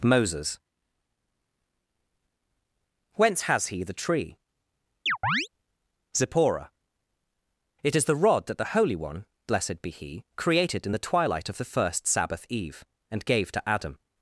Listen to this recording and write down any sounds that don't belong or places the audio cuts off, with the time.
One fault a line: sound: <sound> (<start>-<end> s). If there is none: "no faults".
sound: chirp (5.1-5.5 s)